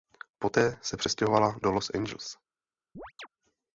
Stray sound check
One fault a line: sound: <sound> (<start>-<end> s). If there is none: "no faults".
sound: chirp (3.0-3.3 s)